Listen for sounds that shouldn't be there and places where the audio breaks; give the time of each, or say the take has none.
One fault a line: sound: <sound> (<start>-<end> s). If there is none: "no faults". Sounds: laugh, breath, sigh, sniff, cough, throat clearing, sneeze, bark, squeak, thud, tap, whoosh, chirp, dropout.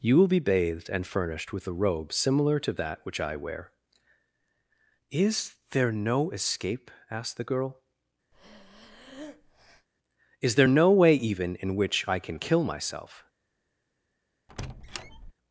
sound: breath (8.3-9.9 s)
sound: squeak (14.5-15.3 s)